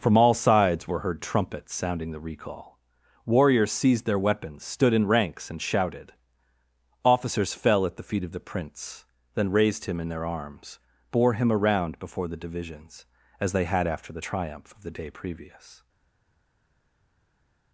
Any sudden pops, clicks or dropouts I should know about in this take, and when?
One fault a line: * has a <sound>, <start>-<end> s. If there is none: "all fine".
all fine